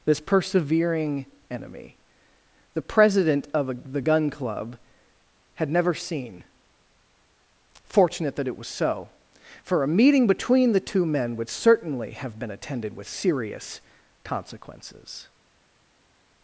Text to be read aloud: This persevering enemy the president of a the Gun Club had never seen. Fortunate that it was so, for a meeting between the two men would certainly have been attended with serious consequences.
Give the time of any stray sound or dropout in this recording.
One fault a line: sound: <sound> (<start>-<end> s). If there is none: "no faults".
no faults